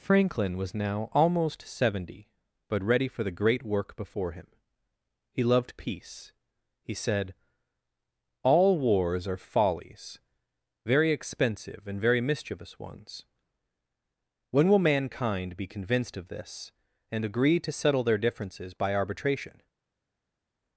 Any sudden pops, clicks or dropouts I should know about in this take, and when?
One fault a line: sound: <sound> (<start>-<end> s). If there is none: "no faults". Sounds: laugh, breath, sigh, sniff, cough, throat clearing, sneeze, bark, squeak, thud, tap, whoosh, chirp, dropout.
no faults